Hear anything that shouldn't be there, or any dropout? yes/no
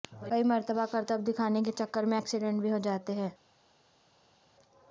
no